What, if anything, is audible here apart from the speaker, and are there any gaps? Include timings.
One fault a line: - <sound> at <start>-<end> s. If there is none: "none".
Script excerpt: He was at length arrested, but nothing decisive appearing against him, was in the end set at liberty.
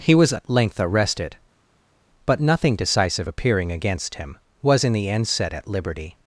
none